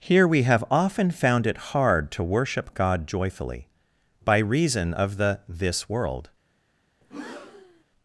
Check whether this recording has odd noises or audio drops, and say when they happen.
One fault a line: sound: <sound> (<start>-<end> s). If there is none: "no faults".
sound: breath (7.0-7.8 s)